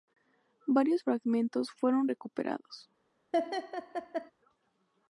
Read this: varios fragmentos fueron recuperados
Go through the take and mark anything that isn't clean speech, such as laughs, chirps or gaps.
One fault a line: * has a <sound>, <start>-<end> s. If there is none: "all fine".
* has a laugh, 3.3-4.3 s